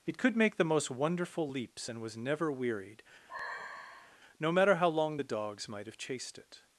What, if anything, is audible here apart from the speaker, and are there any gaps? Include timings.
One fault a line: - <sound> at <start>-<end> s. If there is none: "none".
- sigh at 3.3-4.2 s